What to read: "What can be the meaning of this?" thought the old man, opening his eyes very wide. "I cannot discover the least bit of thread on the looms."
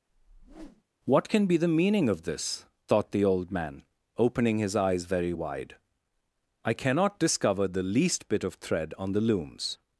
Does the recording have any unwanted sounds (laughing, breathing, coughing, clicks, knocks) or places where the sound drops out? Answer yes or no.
yes